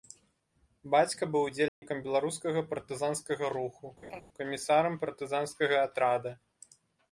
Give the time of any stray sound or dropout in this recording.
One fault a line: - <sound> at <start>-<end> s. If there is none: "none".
- dropout at 1.7-1.8 s
- laugh at 4.0-4.2 s